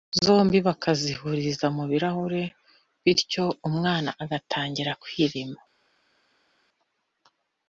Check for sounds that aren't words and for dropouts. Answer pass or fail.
pass